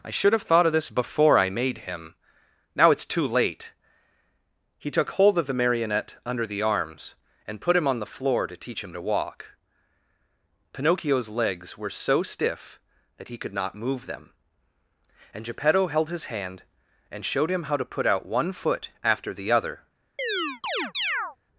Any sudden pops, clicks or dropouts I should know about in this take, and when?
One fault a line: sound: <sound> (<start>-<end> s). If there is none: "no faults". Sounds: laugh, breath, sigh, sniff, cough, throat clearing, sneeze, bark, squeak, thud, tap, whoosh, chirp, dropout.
sound: chirp (20.2-21.4 s)